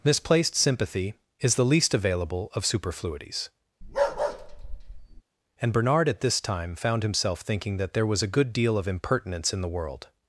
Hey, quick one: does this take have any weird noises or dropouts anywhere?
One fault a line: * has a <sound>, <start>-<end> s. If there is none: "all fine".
* has a bark, 3.8-5.2 s